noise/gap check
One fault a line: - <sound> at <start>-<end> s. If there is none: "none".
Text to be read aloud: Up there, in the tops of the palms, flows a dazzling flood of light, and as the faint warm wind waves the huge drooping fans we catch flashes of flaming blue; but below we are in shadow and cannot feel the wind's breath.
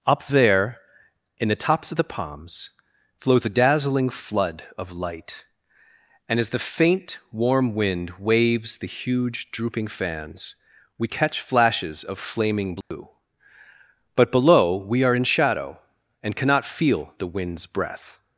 - dropout at 12.8-12.9 s